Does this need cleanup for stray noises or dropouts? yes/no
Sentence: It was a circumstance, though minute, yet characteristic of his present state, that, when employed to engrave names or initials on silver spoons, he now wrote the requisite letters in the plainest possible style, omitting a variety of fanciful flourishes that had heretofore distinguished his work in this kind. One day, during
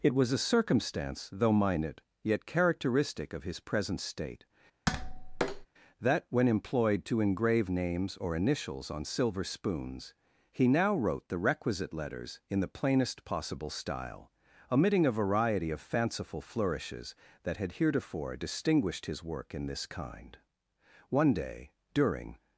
yes